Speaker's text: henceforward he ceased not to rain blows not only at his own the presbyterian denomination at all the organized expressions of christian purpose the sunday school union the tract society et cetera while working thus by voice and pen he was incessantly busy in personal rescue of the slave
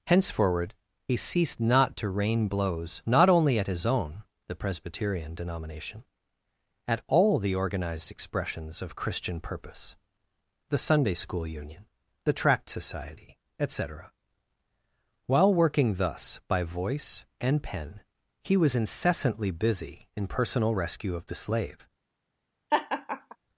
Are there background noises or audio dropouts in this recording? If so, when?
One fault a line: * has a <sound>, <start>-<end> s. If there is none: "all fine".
* has a laugh, 22.7-23.4 s